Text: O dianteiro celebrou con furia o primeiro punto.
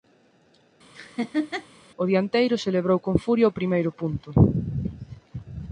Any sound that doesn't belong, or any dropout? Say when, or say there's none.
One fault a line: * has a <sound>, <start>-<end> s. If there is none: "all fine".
* has a laugh, 0.9-1.7 s